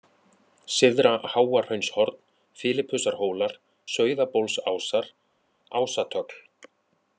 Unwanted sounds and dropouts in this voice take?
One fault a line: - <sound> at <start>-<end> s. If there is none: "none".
none